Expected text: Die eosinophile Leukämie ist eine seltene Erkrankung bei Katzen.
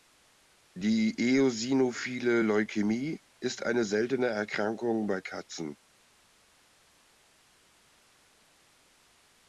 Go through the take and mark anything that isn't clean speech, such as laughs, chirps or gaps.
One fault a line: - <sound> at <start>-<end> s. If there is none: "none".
none